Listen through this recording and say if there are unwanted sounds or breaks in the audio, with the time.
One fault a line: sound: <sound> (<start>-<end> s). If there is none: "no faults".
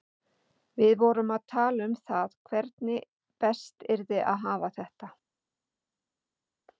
no faults